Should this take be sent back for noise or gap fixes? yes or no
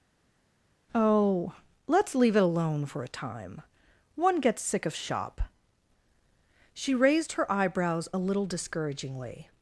no